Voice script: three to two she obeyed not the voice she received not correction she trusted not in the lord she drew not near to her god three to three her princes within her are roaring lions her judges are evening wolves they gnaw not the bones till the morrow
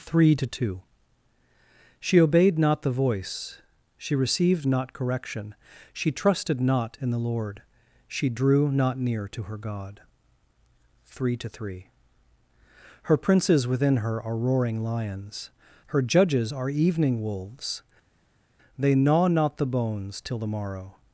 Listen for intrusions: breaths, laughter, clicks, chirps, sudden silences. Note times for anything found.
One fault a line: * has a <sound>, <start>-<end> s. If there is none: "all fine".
all fine